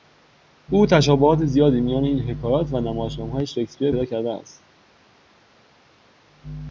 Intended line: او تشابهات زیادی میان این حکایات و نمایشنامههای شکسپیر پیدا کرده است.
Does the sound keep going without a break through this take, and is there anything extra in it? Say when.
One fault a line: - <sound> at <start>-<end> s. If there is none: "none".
none